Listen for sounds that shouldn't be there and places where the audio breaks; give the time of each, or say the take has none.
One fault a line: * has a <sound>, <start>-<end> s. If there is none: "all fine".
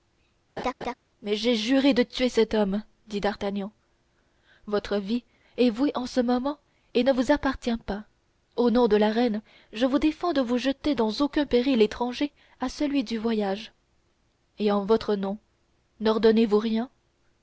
* has a laugh, 0.6-0.9 s